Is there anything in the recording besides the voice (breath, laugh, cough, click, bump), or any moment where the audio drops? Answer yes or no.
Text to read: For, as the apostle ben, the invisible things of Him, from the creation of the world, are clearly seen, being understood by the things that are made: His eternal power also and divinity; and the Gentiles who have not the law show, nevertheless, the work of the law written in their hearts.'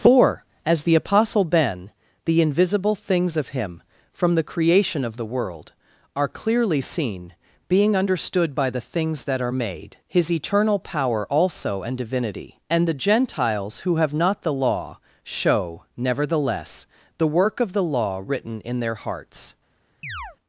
yes